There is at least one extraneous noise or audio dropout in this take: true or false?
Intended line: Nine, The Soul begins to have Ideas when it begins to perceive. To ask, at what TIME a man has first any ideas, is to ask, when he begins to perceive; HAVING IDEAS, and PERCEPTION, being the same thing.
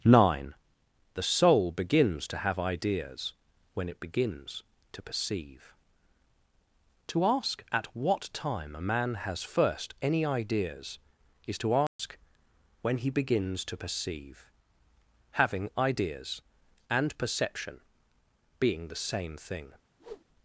true